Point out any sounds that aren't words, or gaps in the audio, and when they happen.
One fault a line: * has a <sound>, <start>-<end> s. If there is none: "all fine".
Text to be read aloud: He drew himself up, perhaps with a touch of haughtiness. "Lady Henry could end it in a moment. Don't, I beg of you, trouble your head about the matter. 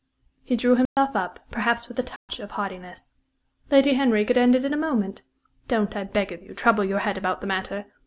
* has a dropout, 0.9-1.0 s
* has a dropout, 2.2-2.3 s